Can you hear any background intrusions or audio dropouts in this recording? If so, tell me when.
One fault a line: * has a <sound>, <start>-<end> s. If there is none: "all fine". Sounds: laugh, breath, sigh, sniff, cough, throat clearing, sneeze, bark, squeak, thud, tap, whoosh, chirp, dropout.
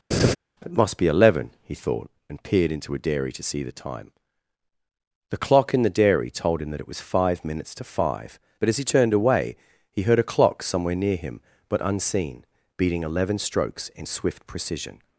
* has a laugh, 0.1-0.4 s